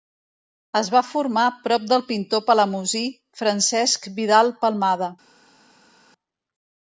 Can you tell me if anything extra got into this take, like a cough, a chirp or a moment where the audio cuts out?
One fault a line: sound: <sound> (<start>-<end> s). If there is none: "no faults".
no faults